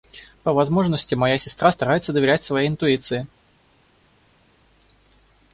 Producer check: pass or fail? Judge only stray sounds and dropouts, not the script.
pass